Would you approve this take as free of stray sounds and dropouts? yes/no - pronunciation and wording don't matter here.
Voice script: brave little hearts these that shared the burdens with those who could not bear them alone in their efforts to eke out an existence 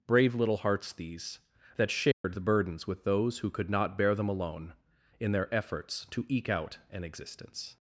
no